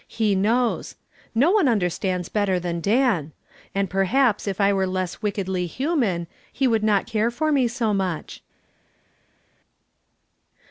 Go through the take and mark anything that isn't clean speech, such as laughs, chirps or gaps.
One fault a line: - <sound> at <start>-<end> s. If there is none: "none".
none